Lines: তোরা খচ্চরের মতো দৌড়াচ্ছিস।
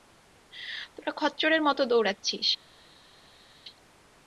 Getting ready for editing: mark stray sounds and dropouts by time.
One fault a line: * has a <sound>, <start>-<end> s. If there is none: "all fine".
all fine